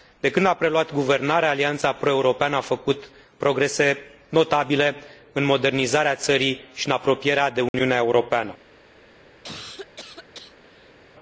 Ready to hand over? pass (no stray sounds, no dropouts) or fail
fail